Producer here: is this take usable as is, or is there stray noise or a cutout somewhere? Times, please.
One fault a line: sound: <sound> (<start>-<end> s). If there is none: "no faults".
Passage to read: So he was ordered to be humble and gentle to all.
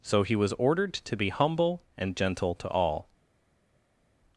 no faults